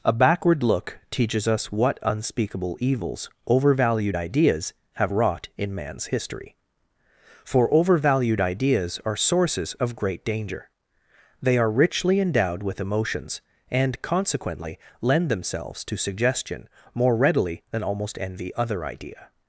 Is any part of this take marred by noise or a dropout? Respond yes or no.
no